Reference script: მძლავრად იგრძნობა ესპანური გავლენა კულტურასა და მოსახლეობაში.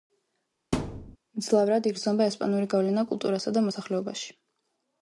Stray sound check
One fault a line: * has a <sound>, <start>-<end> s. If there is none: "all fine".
* has a thud, 0.7-1.2 s